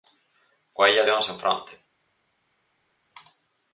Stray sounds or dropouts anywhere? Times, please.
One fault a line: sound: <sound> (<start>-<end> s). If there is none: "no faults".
no faults